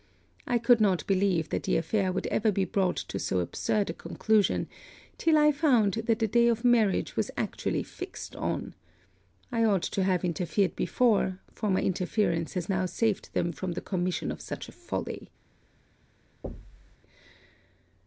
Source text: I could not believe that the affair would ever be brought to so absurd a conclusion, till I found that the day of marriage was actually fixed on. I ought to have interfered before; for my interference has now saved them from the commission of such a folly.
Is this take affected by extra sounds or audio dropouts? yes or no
yes